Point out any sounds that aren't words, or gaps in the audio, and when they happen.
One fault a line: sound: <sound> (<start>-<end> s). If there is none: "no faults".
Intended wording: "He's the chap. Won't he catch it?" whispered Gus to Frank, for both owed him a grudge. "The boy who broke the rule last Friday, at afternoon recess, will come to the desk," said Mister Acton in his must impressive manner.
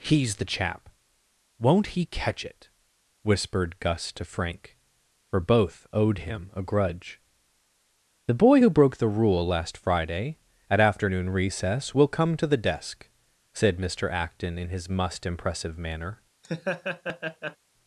sound: laugh (16.4-17.6 s)